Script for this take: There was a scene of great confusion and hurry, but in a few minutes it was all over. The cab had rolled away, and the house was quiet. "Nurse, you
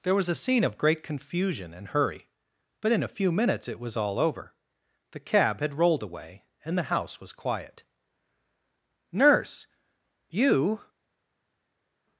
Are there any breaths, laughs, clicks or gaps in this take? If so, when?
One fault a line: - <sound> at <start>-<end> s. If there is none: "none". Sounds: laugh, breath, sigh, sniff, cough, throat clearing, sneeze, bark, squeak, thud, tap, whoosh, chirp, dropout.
none